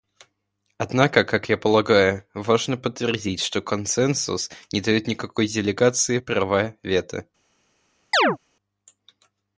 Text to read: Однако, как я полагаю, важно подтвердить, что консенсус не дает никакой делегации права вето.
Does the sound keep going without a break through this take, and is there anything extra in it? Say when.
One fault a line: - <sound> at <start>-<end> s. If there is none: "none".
- chirp at 8.1-8.4 s